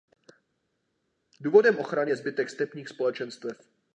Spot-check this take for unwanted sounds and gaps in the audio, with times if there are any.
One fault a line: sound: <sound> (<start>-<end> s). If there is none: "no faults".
no faults